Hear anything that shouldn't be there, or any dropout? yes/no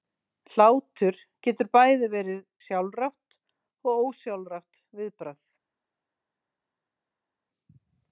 no